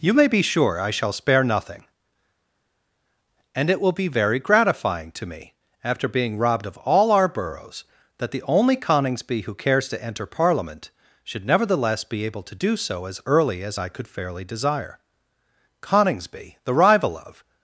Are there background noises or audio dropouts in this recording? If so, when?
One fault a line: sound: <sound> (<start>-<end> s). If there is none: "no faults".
no faults